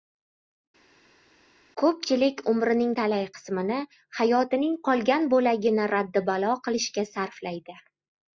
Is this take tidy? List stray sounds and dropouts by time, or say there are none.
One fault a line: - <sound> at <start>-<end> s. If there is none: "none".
none